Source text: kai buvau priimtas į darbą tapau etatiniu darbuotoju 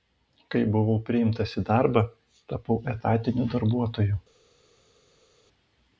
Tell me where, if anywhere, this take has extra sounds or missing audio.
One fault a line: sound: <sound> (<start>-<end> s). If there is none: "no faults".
no faults